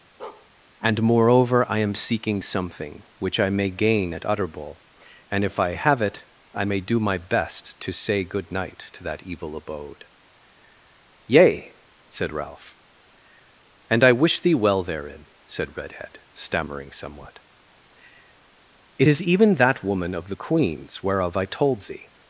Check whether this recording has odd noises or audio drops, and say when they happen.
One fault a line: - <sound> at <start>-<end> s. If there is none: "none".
- bark at 0.2-0.5 s